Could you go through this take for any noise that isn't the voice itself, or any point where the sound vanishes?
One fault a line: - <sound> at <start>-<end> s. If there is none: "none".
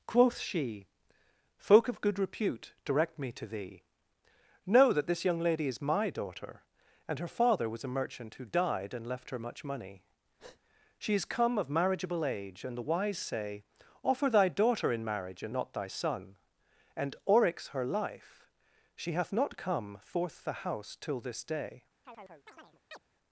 - breath at 10.4-10.6 s
- chirp at 22.0-23.0 s